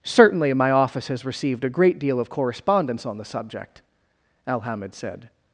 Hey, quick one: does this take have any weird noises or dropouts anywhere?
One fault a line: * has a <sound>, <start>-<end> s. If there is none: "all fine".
all fine